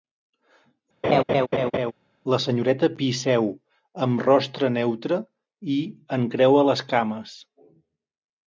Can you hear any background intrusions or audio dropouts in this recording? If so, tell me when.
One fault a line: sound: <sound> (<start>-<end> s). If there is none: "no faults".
sound: laugh (1.0-1.9 s)